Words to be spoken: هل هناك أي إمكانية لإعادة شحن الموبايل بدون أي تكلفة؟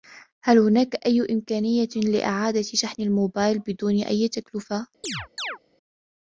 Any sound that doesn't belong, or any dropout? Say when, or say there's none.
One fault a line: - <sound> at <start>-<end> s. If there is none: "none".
- chirp at 5.0-5.6 s